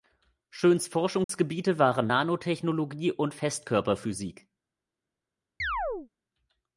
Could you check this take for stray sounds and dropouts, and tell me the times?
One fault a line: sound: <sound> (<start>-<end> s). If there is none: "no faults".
sound: dropout (1.2-1.3 s)
sound: chirp (5.6-6.1 s)